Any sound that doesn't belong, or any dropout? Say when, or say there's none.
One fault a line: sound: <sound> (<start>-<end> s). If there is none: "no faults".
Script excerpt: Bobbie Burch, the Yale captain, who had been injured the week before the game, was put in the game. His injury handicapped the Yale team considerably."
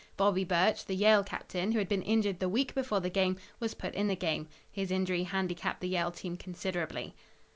no faults